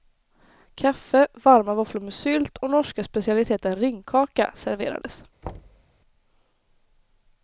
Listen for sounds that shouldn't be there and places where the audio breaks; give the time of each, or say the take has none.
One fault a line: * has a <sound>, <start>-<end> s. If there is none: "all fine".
* has a thud, 5.4-5.9 s